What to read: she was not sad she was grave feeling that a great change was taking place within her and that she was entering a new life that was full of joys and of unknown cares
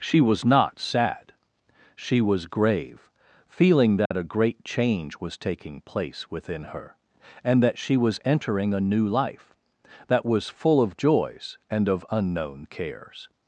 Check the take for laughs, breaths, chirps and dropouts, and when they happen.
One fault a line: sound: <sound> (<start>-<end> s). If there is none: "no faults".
sound: dropout (4.1-4.1 s)